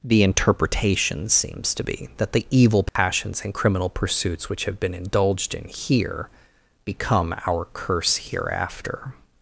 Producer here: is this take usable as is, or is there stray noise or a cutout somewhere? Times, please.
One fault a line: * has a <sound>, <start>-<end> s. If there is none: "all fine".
* has a dropout, 2.9-3.0 s